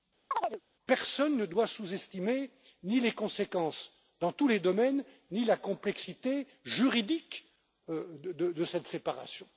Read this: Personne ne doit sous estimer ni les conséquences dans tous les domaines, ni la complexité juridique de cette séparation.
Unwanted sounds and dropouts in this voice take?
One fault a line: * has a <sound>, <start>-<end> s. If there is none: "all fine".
* has a chirp, 0.3-0.6 s